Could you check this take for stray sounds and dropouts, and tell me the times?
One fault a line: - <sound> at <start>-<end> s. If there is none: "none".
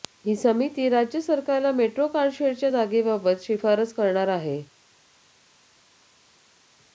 none